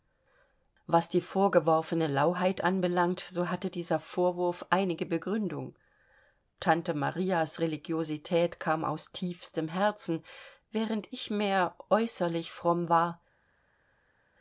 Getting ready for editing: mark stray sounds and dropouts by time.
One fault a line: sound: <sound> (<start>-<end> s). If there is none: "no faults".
no faults